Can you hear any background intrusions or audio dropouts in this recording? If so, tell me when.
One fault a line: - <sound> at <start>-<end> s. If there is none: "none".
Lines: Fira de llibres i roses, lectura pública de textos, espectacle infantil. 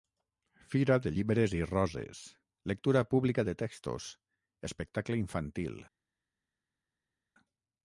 none